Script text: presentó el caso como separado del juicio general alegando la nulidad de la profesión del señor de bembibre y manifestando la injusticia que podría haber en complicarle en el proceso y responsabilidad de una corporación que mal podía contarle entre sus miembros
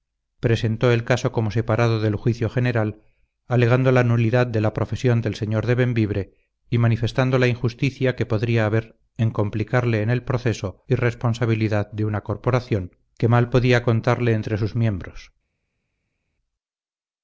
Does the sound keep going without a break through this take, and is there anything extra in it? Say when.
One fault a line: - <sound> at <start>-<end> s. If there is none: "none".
none